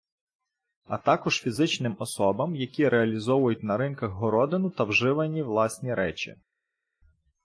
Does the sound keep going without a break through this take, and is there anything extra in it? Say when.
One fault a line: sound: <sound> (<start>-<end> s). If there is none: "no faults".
no faults